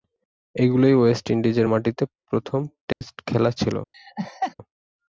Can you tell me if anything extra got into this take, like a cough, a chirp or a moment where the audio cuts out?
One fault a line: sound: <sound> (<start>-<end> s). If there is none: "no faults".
sound: dropout (2.9-3.0 s)
sound: laugh (3.9-4.5 s)